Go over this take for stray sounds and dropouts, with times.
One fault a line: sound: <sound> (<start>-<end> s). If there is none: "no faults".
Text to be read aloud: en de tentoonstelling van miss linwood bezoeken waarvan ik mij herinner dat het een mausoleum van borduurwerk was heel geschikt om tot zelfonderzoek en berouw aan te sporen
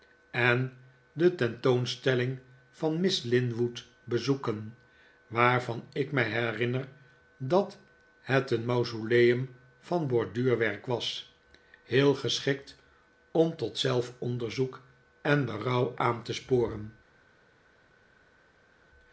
no faults